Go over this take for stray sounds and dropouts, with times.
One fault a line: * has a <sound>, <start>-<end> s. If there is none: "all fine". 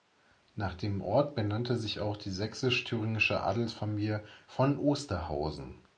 all fine